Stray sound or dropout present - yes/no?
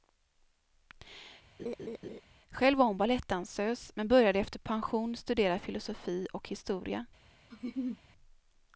yes